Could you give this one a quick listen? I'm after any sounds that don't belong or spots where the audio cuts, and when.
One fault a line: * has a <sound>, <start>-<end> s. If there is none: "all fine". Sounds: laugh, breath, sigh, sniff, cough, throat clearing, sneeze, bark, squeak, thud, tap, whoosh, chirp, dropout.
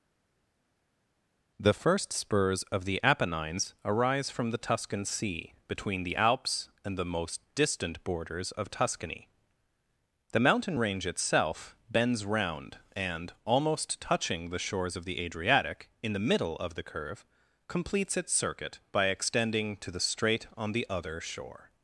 all fine